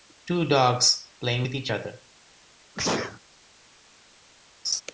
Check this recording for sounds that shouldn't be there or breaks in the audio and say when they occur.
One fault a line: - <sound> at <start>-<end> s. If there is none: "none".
- sneeze at 2.7-3.2 s
- laugh at 4.6-4.8 s